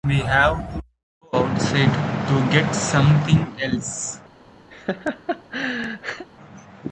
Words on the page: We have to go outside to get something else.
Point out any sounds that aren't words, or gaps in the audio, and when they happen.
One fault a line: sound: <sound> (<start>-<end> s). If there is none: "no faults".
sound: laugh (4.7-6.3 s)